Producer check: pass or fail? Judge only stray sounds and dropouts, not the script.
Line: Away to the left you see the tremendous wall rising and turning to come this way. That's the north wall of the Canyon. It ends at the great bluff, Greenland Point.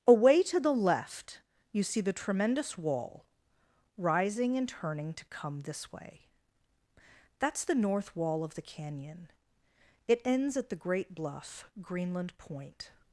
pass